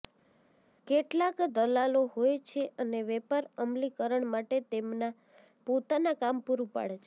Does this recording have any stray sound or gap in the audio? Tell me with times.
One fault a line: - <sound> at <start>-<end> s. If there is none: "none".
none